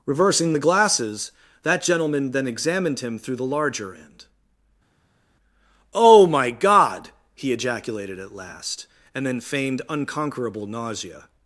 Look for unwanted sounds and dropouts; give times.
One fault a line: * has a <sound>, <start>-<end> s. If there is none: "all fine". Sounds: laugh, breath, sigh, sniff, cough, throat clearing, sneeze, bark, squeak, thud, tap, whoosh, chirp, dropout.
all fine